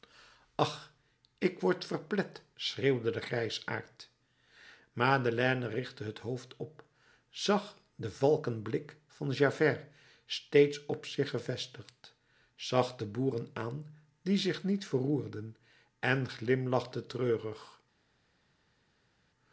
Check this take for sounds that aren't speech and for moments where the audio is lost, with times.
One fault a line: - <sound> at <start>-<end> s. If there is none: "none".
none